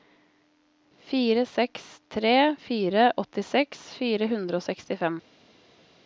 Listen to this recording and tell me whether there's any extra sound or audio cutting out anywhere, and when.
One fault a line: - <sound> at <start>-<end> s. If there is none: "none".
none